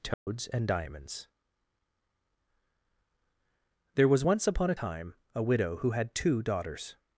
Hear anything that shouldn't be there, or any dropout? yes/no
yes